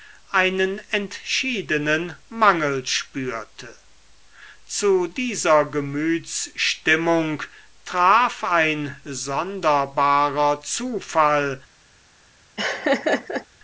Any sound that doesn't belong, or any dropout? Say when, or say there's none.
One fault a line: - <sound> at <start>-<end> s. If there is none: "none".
- laugh at 12.6-13.5 s